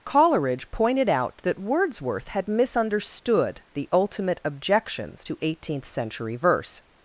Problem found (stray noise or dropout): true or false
false